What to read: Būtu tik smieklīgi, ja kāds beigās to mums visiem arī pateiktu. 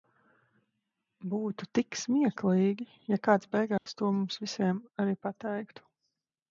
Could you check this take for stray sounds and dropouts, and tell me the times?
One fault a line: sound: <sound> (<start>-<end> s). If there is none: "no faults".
sound: dropout (3.8-3.9 s)